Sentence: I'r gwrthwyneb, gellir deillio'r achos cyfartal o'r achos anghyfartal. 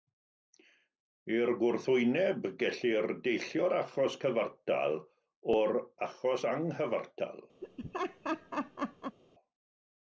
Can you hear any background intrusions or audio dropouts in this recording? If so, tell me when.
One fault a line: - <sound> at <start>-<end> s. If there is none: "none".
- laugh at 7.6-9.2 s